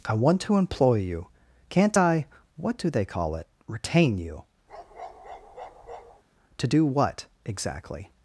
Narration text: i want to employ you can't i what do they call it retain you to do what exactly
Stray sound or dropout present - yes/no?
yes